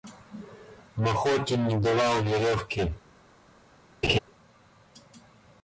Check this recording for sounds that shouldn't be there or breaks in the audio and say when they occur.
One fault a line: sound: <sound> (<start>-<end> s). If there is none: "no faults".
sound: laugh (4.0-4.2 s)